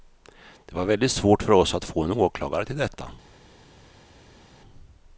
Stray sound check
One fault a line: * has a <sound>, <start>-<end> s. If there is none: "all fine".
all fine